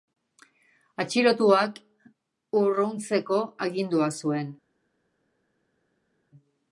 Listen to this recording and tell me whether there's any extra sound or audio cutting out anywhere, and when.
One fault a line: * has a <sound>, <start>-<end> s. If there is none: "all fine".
all fine